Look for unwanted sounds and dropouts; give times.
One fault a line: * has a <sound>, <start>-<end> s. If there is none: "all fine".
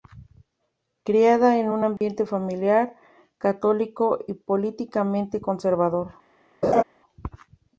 * has a dropout, 2.0-2.0 s
* has a laugh, 6.6-6.8 s